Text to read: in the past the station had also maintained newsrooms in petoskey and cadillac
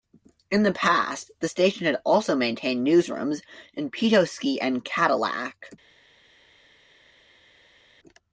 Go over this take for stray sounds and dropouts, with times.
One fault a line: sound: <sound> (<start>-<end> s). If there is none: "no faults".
no faults